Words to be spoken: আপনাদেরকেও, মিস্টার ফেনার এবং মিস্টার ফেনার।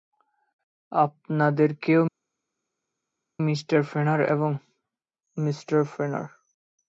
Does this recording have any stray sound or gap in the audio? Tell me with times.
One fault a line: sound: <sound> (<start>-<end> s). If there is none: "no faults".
no faults